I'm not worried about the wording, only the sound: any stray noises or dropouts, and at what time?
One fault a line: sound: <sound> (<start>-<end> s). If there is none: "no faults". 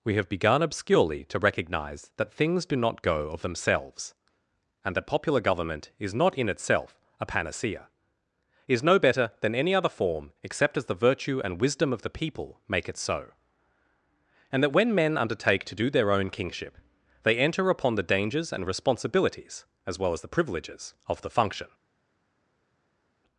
no faults